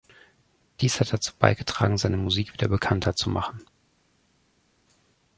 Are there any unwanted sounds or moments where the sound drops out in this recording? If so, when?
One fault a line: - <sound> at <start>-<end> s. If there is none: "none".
none